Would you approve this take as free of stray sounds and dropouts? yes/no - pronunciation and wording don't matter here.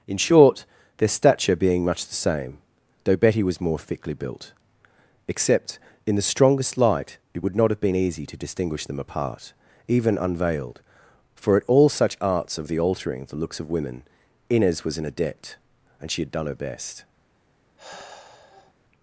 no